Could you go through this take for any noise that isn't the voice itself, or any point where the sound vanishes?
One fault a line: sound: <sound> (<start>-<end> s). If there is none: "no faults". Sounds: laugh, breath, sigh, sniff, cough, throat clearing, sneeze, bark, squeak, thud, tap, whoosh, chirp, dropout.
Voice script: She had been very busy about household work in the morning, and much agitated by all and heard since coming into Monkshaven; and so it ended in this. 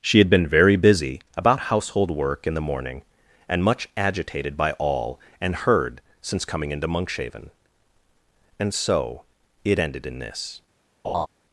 sound: laugh (11.0-11.3 s)